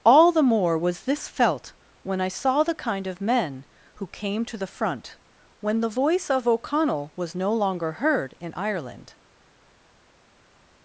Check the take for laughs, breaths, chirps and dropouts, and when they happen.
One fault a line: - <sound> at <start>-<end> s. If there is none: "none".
none